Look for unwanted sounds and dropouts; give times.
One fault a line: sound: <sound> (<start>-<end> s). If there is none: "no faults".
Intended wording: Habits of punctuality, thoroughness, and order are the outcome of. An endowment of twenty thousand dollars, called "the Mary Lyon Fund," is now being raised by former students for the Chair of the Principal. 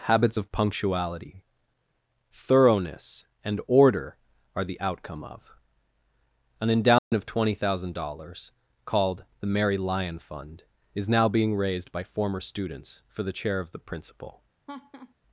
sound: dropout (7.0-7.1 s)
sound: laugh (14.7-15.1 s)